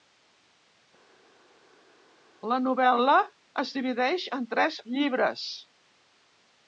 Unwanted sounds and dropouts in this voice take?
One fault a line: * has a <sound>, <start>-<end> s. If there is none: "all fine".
all fine